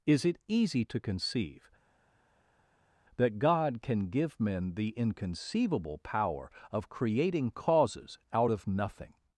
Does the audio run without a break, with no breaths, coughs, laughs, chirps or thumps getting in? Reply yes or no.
yes